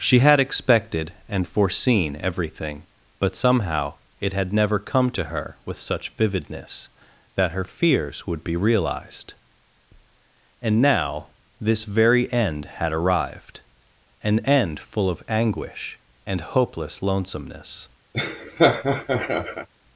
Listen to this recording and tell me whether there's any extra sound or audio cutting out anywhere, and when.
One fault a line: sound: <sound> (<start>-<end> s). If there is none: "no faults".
sound: laugh (18.1-19.7 s)